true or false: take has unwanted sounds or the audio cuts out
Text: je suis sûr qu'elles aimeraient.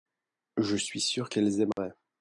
true